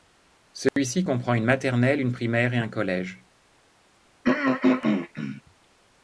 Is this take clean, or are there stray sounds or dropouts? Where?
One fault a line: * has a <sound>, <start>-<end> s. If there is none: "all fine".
* has a dropout, 0.7-0.8 s
* has a throat clearing, 4.2-5.4 s